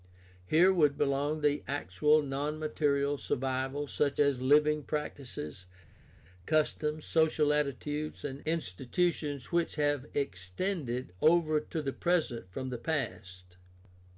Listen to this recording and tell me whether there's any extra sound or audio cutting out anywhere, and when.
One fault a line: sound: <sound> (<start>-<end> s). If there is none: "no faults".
no faults